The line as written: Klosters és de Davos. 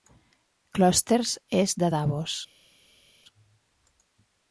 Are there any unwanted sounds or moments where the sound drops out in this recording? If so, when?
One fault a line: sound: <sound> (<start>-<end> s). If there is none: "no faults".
no faults